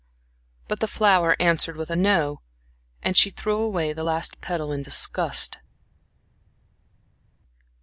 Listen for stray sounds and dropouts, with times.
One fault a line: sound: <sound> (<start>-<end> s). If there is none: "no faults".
no faults